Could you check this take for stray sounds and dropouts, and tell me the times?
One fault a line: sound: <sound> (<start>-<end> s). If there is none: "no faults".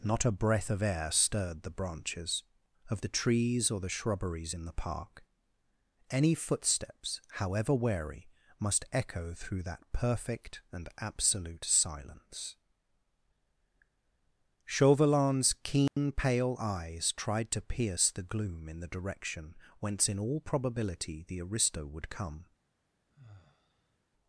sound: dropout (15.9-16.0 s)
sound: sigh (23.1-24.0 s)